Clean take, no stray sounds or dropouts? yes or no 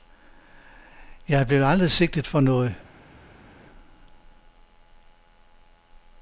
yes